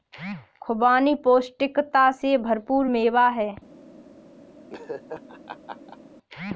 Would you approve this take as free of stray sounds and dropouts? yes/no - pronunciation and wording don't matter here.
no